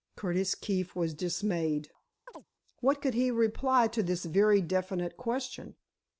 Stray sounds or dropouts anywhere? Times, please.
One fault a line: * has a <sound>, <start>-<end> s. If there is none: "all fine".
* has a chirp, 2.3-2.5 s